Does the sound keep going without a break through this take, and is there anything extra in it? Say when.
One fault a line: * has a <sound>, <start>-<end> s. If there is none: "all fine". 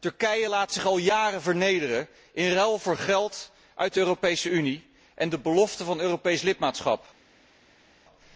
all fine